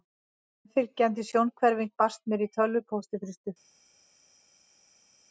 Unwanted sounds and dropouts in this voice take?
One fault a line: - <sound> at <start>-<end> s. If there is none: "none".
none